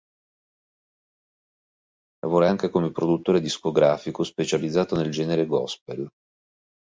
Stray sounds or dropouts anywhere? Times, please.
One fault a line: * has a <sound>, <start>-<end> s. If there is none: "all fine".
all fine